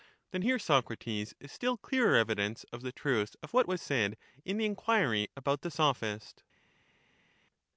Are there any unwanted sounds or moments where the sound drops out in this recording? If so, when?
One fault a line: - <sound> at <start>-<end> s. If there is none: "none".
none